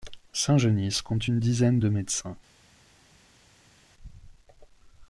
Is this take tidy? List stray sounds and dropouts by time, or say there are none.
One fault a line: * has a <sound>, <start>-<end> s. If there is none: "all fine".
all fine